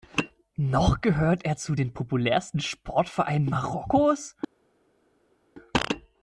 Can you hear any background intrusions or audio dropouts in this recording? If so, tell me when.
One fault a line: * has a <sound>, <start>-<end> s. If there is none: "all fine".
all fine